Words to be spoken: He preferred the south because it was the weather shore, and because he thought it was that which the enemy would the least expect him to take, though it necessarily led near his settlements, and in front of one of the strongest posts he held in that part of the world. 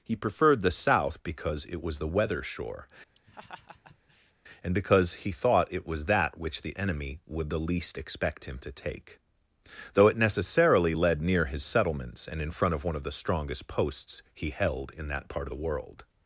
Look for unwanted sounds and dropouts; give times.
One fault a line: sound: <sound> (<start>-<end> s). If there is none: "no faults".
sound: laugh (3.2-4.3 s)